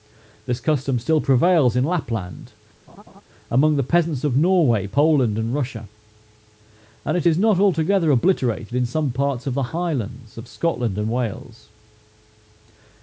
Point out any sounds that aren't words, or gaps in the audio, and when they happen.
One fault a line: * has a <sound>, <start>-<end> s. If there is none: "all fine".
* has a laugh, 2.9-3.2 s